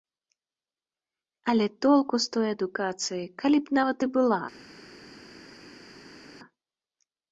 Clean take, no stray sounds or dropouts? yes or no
yes